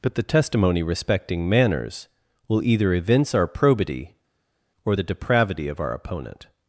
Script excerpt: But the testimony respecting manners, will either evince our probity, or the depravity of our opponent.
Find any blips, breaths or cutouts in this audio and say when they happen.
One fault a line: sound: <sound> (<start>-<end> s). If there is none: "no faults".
no faults